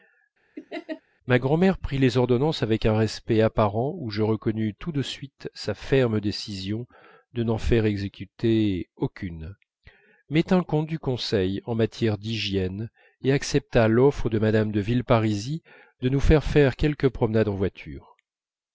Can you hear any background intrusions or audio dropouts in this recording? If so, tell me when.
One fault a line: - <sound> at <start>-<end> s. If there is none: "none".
- laugh at 0.6-1.0 s